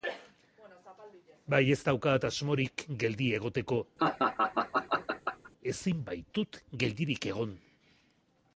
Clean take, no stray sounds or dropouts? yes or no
no